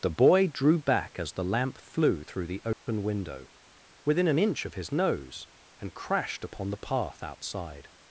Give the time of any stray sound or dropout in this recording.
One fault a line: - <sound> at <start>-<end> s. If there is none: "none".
- dropout at 2.7-2.9 s